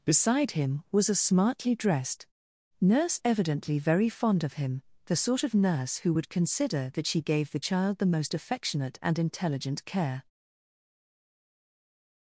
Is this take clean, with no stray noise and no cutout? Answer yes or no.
yes